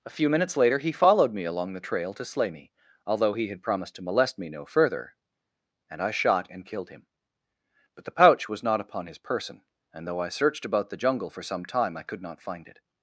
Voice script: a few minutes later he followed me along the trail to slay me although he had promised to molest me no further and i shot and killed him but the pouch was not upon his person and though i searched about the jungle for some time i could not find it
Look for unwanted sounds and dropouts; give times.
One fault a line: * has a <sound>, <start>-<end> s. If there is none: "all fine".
all fine